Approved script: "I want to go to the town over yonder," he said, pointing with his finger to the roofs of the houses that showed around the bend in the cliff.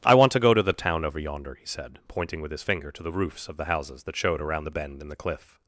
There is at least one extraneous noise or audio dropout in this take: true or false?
false